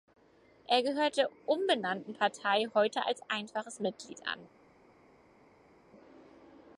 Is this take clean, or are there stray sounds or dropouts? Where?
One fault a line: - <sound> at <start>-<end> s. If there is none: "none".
none